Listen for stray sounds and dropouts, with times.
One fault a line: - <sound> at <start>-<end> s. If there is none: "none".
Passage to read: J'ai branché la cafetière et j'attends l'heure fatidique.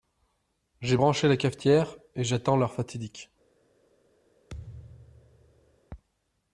- thud at 4.5-5.8 s